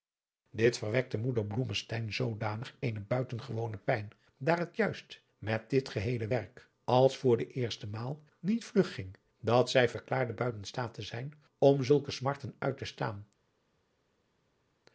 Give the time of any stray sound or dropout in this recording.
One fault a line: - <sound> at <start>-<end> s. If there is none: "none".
none